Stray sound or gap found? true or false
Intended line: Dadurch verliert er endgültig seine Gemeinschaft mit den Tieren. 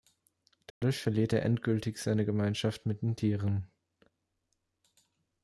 true